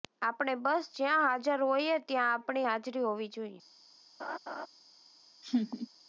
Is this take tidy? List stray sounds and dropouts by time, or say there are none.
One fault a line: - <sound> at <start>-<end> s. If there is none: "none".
- laugh at 4.2-4.7 s
- laugh at 5.4-5.9 s